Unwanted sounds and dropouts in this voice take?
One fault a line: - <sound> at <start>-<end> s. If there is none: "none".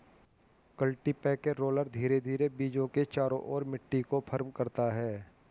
none